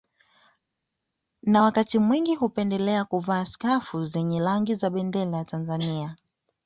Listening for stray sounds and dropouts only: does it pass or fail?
pass